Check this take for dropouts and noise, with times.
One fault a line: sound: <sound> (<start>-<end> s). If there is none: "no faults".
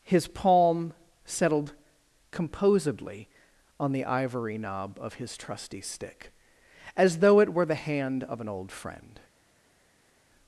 no faults